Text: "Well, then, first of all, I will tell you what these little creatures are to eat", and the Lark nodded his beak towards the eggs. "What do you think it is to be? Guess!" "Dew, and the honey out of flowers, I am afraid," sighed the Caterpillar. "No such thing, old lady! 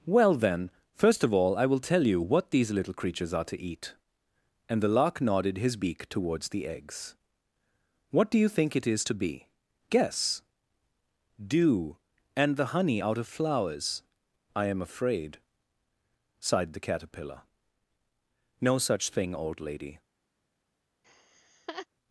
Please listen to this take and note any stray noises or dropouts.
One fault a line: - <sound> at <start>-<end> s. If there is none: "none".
- laugh at 21.0-21.9 s